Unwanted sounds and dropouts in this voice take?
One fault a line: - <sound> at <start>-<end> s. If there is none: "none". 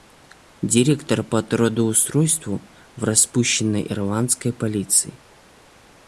none